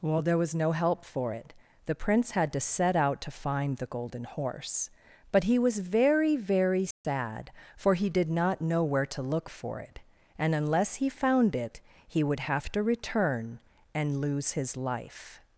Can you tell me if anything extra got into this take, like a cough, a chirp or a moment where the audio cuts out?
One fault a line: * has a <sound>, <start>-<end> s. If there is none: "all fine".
* has a dropout, 6.9-7.0 s